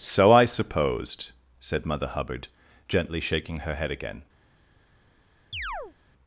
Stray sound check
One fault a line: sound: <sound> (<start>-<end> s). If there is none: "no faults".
sound: chirp (5.5-5.9 s)